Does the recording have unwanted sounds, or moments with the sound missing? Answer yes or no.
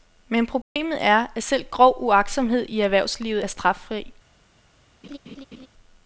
yes